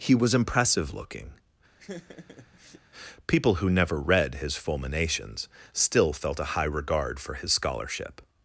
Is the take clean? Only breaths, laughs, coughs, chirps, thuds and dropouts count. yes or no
no